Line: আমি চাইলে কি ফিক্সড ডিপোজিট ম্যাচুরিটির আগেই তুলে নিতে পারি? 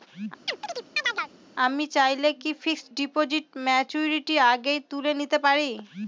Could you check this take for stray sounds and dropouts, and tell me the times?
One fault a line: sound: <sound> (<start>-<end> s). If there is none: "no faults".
sound: chirp (0.5-1.3 s)